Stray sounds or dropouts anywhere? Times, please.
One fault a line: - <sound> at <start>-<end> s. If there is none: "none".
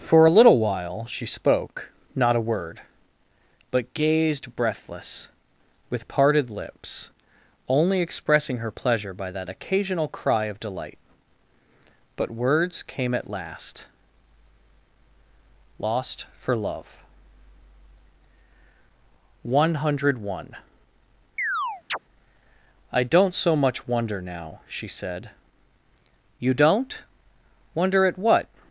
- chirp at 21.4-22.0 s